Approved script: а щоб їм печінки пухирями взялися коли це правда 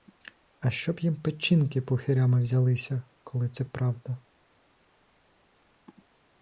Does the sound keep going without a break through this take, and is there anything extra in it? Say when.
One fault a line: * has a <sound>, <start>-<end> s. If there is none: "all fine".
all fine